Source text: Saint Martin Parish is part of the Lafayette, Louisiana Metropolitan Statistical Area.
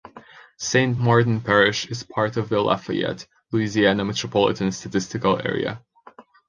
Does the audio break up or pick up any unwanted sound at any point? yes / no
no